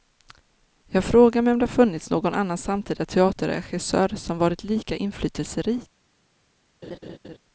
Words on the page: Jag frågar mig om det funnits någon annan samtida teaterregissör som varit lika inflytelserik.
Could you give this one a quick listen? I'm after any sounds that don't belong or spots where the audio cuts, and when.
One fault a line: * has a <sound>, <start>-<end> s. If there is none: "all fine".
* has a laugh, 6.8-7.4 s